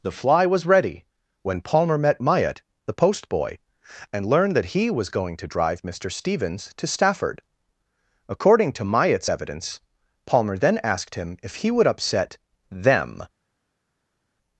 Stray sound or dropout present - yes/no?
no